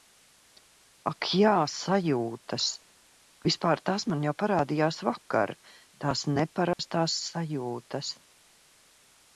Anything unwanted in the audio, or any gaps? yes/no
yes